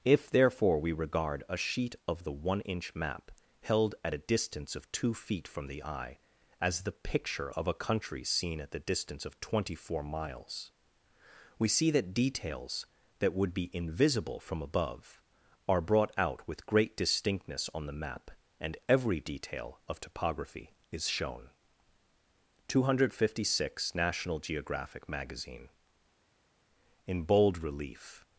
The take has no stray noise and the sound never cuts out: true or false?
true